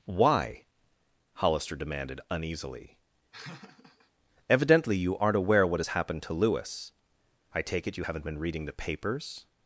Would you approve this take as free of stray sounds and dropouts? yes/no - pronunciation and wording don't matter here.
no